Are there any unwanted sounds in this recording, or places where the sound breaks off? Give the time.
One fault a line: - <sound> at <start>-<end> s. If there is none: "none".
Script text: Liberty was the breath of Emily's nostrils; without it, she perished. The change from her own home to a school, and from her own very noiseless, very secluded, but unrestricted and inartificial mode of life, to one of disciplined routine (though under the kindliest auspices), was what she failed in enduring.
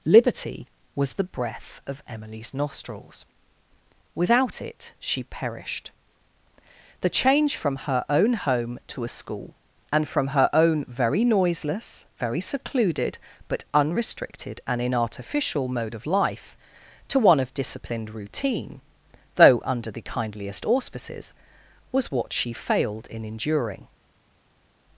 none